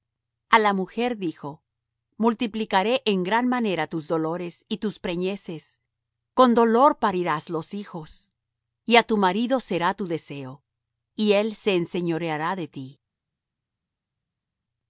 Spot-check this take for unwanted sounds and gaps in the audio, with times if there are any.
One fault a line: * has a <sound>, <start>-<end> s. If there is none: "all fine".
all fine